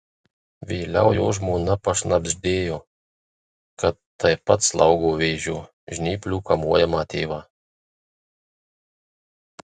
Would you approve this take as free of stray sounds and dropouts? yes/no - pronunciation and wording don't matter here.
yes